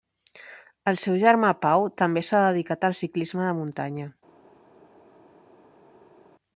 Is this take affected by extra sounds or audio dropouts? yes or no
no